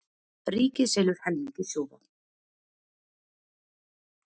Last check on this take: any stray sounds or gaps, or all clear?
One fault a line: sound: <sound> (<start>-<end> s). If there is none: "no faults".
no faults